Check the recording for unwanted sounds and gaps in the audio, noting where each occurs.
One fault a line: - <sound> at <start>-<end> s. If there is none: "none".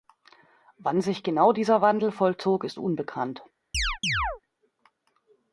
- chirp at 3.7-4.4 s